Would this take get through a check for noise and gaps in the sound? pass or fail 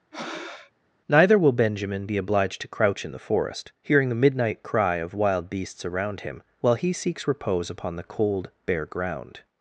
fail